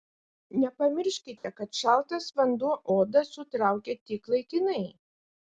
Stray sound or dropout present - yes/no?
yes